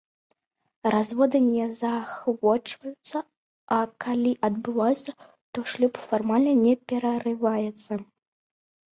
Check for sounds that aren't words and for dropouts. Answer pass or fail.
pass